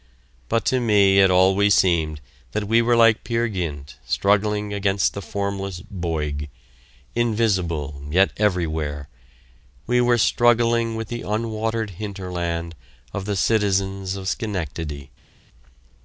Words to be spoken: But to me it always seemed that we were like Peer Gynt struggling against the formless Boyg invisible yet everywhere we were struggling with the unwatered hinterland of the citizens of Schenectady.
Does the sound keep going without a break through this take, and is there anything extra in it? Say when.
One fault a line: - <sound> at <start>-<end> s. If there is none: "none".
none